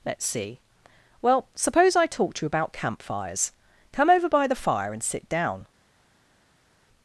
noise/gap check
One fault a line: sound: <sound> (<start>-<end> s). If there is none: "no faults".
no faults